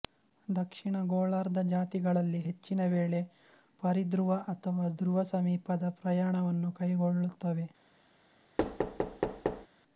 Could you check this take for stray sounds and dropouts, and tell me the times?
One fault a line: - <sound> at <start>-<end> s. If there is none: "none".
- thud at 8.6-9.7 s